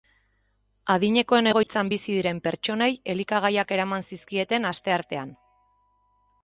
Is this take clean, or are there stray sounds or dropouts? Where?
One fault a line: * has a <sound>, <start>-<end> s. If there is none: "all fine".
* has a dropout, 1.6-1.7 s